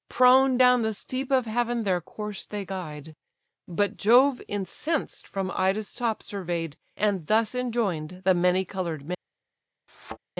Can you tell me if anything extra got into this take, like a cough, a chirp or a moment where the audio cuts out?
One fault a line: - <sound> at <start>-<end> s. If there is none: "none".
- thud at 9.9-10.2 s